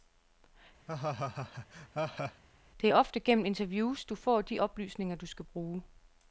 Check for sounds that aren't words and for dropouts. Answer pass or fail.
fail